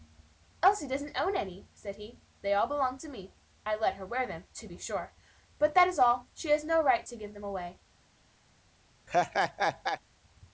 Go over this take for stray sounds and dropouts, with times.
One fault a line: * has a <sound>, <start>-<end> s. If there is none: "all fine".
* has a laugh, 9.1-10.0 s